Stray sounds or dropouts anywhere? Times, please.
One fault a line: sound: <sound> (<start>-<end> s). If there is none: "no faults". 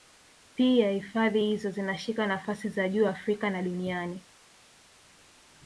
no faults